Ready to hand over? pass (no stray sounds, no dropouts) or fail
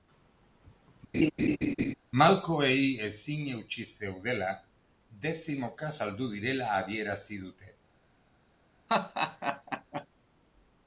fail